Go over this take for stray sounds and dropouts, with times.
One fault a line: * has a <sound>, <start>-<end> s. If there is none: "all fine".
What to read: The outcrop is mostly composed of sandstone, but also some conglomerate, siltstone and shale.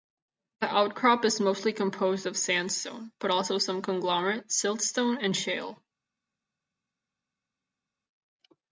all fine